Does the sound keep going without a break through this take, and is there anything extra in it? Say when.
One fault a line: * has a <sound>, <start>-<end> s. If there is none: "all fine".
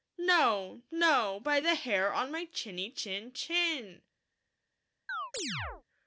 * has a chirp, 5.1-5.8 s